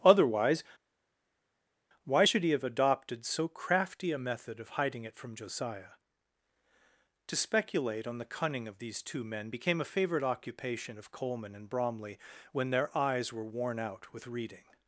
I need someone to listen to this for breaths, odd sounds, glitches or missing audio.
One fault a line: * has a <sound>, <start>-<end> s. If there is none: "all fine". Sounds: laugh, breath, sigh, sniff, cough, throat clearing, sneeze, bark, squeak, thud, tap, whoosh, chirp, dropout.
all fine